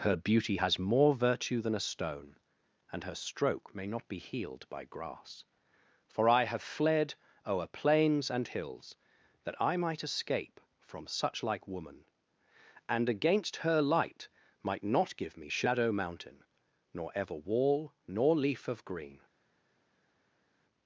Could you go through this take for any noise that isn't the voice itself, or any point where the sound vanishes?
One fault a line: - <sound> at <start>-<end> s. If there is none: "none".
none